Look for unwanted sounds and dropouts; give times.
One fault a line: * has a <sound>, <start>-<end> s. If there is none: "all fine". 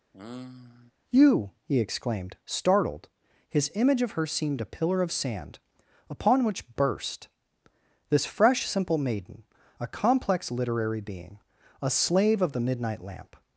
* has a sigh, 0.1-0.9 s